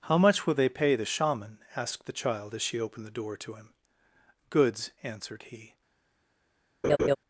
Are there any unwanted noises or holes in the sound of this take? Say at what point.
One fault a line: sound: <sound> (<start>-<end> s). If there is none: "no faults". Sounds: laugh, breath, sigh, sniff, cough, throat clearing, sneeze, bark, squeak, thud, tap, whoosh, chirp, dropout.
sound: laugh (6.8-7.2 s)